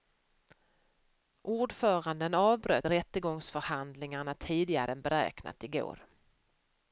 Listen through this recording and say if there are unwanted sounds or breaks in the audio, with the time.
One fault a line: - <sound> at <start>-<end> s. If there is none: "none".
none